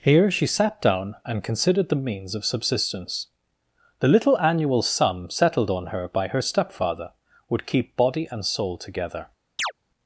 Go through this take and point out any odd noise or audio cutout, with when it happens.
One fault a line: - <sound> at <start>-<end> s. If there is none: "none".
- chirp at 9.6-9.7 s